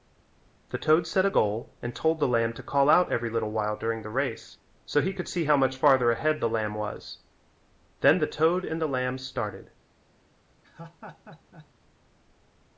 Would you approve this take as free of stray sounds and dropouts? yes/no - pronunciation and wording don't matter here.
no